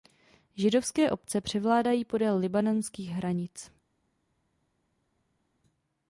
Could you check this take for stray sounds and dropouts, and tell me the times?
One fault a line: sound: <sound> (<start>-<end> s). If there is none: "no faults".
no faults